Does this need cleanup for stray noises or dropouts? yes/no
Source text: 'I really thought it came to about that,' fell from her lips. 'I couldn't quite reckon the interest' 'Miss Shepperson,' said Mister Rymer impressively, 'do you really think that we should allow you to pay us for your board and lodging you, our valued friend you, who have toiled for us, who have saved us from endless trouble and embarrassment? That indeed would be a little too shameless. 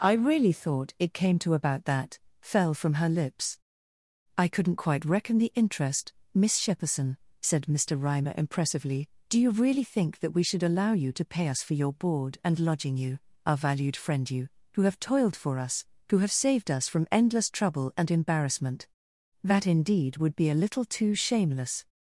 no